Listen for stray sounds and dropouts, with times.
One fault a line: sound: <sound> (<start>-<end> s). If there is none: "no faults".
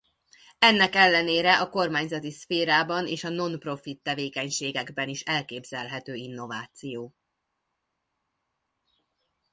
no faults